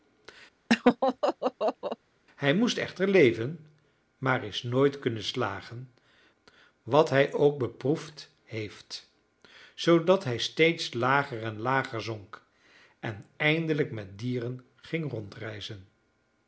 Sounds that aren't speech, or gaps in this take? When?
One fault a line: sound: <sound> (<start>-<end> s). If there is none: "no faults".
sound: laugh (0.7-2.0 s)